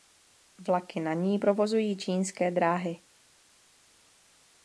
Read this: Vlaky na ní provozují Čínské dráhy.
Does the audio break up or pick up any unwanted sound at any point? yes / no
no